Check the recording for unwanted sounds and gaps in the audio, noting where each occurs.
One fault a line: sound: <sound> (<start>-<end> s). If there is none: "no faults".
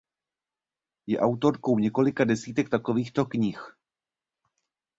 no faults